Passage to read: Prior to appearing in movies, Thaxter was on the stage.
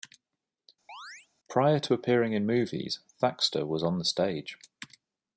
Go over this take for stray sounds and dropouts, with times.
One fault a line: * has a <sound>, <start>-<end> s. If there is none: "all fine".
* has a chirp, 0.9-1.3 s